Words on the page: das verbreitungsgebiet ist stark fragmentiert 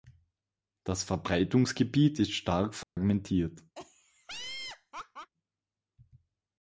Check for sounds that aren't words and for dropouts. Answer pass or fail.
fail